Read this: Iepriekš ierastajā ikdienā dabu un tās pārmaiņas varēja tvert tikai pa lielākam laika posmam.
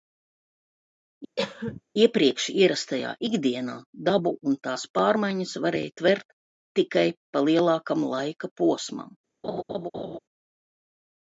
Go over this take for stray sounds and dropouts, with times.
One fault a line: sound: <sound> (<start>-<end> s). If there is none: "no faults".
sound: cough (1.4-1.8 s)
sound: laugh (9.4-10.2 s)